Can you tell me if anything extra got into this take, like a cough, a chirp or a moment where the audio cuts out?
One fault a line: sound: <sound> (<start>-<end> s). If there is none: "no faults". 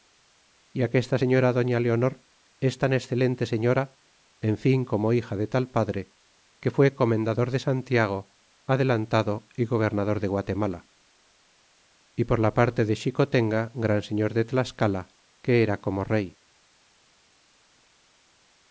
no faults